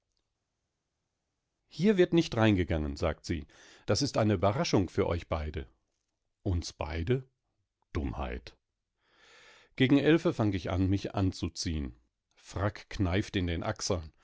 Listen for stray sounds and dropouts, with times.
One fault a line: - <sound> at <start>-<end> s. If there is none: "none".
none